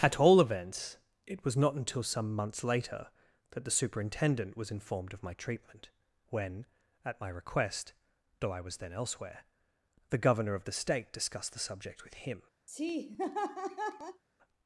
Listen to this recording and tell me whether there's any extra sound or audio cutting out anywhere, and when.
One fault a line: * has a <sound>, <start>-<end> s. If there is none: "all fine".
* has a laugh, 12.7-14.2 s